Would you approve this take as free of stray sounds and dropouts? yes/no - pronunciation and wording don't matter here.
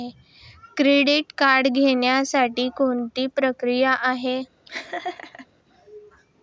no